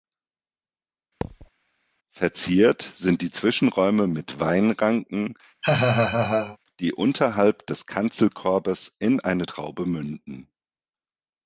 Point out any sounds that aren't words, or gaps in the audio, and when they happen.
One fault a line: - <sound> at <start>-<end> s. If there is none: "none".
- thud at 1.2-1.5 s
- laugh at 5.6-6.6 s